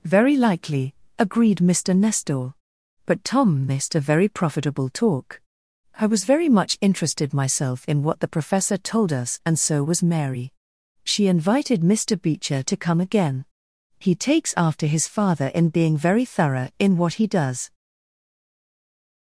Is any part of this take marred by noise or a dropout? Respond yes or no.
no